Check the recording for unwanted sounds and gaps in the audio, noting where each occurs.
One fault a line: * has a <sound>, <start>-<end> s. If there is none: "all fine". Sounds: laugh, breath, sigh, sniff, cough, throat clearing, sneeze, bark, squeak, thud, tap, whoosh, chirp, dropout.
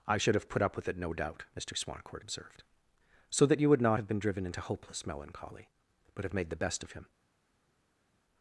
all fine